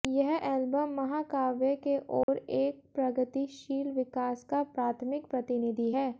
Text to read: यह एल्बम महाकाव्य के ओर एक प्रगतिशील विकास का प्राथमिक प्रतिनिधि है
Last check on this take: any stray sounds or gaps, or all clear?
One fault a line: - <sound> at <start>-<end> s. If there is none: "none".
- dropout at 2.2-2.3 s